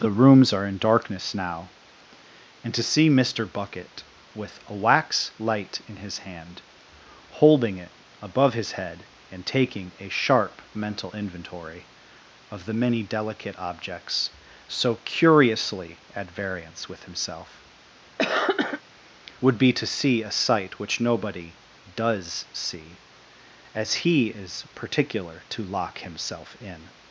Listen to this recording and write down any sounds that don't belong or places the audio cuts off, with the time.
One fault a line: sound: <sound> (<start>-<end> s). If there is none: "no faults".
sound: cough (18.2-18.8 s)